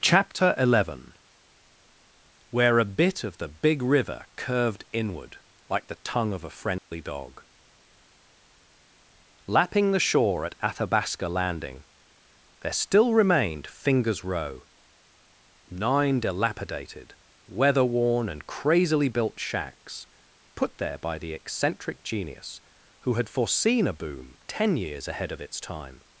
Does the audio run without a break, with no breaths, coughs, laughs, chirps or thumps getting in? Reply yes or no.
no